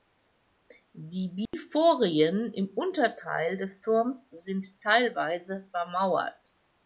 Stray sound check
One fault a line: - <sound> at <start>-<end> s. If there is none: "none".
- dropout at 1.5-1.5 s